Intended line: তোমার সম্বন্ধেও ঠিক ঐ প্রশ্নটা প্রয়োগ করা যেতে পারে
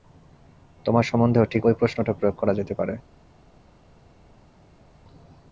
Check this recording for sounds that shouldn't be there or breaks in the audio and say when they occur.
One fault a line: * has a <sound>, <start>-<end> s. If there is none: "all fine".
all fine